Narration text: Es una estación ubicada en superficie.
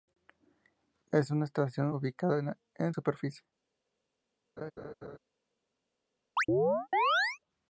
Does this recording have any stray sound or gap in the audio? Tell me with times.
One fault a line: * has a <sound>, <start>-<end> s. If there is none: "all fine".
* has a laugh, 4.6-5.2 s
* has a chirp, 6.4-7.4 s